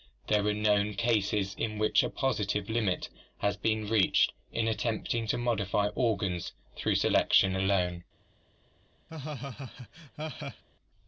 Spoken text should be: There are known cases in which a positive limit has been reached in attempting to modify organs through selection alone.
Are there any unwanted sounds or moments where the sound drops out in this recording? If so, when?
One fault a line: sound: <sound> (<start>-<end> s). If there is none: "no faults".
sound: laugh (9.1-10.6 s)